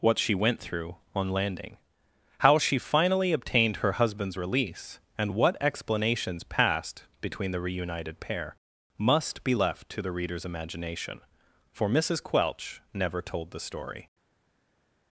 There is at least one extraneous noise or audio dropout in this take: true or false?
false